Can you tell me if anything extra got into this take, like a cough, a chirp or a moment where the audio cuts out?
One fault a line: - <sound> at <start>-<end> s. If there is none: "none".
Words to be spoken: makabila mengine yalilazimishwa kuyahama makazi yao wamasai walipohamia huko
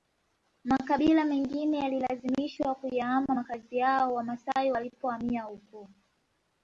none